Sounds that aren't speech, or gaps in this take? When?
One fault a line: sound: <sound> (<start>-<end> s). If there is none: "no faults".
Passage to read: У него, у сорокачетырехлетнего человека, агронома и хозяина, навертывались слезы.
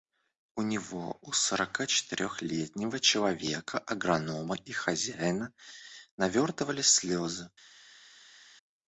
no faults